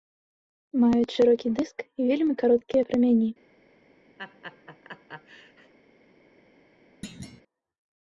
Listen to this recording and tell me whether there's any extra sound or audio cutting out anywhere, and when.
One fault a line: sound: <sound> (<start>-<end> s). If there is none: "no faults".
sound: laugh (4.2-5.7 s)
sound: thud (7.0-7.4 s)